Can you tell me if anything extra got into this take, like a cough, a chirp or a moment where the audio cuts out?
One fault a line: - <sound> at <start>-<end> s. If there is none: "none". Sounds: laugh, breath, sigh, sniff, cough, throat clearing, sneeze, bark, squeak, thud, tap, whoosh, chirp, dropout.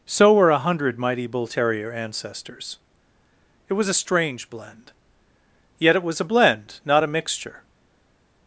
none